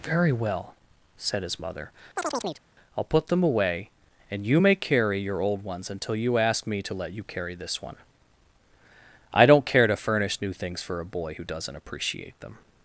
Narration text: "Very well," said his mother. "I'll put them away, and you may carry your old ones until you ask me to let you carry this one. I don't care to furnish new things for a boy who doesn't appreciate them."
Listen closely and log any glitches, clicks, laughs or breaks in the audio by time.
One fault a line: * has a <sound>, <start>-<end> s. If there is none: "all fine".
* has a chirp, 2.2-2.6 s